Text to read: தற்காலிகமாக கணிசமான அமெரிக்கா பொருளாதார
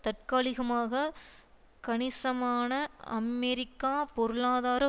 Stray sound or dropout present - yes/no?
no